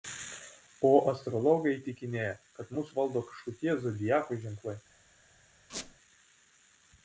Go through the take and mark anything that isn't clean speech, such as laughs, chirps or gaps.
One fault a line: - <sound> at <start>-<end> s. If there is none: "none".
- squeak at 5.7-6.0 s